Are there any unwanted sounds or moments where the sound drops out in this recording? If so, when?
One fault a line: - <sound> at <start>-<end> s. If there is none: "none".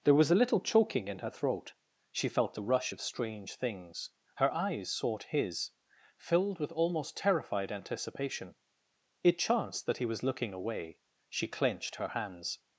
none